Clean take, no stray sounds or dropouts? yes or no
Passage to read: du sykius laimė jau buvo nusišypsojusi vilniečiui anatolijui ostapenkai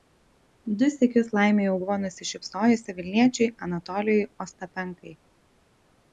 yes